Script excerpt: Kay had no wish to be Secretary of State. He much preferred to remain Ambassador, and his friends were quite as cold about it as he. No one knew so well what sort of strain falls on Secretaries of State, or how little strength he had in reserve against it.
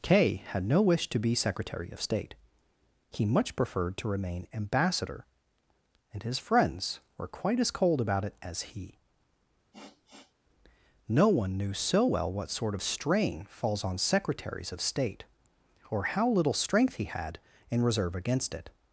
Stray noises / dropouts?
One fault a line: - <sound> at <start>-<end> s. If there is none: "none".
- sniff at 9.7-10.3 s